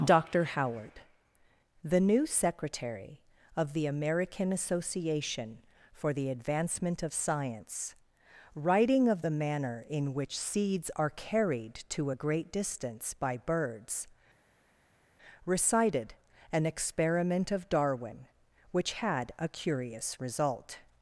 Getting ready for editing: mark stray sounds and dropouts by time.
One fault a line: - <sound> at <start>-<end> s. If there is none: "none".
none